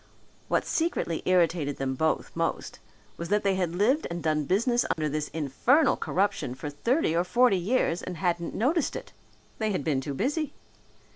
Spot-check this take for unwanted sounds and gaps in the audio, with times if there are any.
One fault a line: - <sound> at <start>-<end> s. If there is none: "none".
- dropout at 4.9-5.0 s